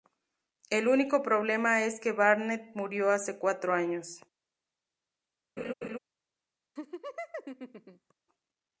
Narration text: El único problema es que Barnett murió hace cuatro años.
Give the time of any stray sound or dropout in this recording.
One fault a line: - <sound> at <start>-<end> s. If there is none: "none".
- laugh at 5.6-6.0 s
- laugh at 6.8-8.1 s